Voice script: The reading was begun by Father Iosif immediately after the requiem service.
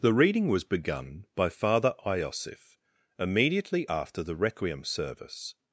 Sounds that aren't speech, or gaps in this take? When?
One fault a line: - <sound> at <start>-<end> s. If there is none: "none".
none